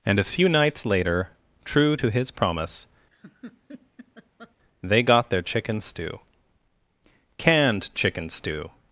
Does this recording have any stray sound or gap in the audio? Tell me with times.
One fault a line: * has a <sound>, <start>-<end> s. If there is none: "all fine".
* has a laugh, 3.1-4.5 s